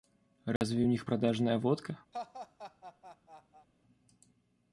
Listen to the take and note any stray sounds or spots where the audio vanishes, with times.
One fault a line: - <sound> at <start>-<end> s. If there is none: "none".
- dropout at 0.6-0.6 s
- laugh at 2.1-3.7 s